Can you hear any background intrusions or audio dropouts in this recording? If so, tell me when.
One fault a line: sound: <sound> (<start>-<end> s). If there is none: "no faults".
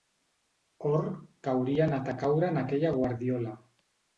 no faults